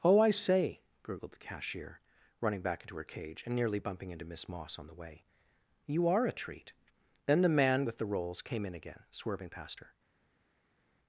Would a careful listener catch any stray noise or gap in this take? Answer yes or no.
no